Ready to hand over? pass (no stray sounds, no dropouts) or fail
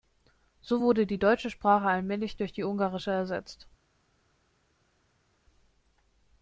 pass